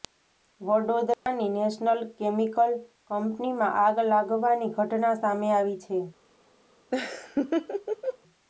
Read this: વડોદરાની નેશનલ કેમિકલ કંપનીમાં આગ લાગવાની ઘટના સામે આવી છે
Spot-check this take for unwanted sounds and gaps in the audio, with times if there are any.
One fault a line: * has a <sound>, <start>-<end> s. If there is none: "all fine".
* has a dropout, 1.1-1.3 s
* has a laugh, 6.9-8.2 s